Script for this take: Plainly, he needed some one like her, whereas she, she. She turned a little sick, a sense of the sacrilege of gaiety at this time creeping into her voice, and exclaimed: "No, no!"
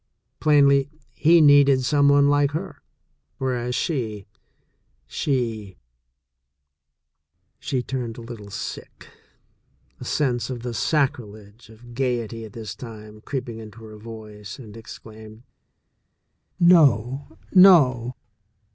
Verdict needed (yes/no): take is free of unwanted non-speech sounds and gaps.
yes